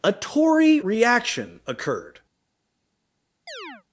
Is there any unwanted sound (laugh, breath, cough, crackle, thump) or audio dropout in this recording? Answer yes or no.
yes